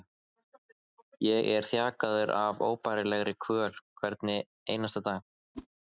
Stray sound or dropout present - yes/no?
yes